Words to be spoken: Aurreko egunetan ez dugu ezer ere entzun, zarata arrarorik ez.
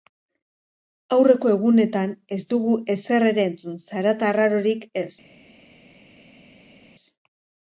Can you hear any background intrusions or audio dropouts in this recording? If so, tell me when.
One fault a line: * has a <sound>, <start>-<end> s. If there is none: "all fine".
all fine